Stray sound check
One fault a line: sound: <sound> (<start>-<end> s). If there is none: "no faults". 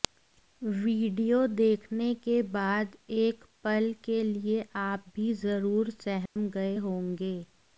sound: dropout (6.3-6.4 s)